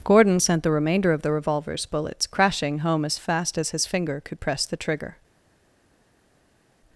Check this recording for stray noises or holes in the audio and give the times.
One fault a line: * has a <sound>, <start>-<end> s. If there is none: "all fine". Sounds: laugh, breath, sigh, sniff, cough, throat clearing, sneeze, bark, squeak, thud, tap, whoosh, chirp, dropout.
all fine